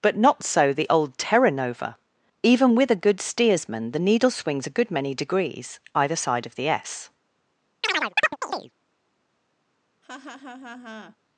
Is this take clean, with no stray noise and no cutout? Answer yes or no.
no